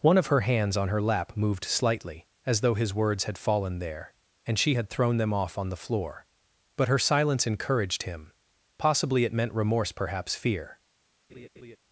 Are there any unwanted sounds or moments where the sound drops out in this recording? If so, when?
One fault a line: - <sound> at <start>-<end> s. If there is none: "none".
- laugh at 11.3-11.8 s